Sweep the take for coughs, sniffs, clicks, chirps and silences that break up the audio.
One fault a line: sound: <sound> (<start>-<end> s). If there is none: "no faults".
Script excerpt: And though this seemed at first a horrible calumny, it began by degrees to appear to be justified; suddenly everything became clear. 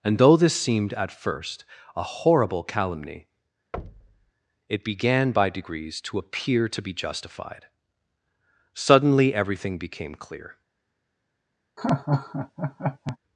sound: thud (3.7-4.3 s)
sound: laugh (11.8-13.2 s)